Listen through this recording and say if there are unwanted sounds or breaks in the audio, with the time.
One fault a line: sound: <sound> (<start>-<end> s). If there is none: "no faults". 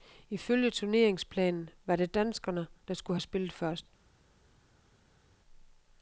no faults